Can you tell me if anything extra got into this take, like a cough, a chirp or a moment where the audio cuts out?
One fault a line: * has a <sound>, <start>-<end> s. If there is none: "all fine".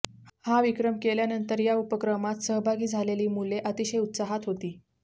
all fine